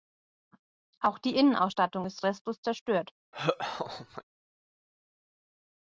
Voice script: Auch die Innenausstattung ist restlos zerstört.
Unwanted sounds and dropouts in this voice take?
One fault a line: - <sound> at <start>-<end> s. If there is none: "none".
- laugh at 3.3-4.2 s